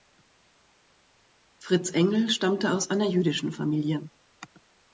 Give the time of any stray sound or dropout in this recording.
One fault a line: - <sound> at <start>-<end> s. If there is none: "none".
none